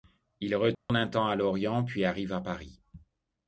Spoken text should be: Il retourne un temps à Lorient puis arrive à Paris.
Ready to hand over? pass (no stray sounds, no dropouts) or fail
fail